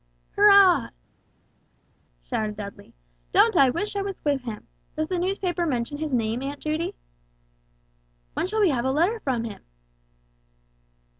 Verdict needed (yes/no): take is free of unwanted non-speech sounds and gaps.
yes